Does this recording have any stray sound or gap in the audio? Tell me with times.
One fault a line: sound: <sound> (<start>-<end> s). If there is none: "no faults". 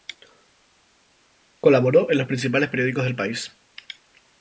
no faults